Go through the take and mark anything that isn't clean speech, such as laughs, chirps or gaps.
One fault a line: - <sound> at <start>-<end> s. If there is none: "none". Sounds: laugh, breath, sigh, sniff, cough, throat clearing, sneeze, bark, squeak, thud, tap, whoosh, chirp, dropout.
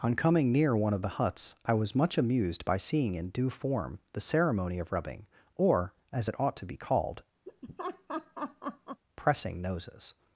- laugh at 7.5-9.0 s